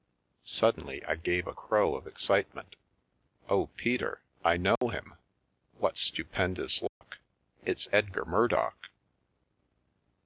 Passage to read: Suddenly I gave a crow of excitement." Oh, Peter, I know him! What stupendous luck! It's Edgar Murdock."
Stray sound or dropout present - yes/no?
yes